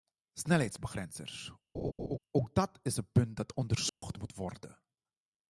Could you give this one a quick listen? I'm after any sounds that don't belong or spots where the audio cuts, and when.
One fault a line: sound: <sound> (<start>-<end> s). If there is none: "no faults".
sound: laugh (1.7-2.2 s)
sound: dropout (3.9-4.0 s)